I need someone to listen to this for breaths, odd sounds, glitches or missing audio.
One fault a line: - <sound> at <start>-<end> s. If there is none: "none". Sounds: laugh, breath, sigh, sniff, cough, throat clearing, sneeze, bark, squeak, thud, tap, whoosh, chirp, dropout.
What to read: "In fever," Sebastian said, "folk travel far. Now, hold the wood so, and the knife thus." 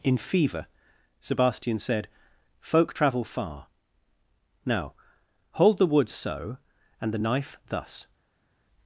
none